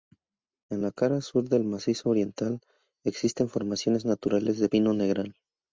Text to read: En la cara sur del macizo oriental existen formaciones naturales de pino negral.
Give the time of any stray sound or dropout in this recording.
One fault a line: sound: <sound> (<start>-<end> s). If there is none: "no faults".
no faults